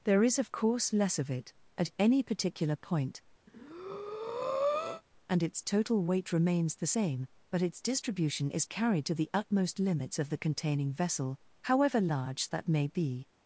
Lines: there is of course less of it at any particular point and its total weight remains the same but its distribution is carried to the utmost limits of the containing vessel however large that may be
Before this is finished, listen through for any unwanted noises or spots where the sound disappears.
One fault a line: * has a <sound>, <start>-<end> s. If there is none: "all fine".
* has a breath, 3.5-5.0 s